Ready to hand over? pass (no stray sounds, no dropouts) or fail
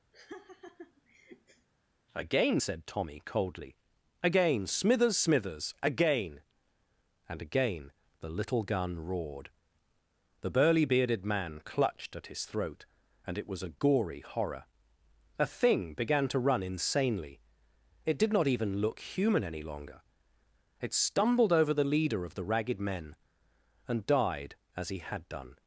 fail